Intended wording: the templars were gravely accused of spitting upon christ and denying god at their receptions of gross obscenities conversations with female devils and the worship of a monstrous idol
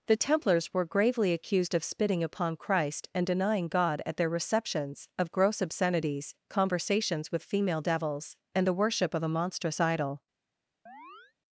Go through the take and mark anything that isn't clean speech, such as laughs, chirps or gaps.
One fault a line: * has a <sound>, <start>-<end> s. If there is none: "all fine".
* has a chirp, 10.9-11.3 s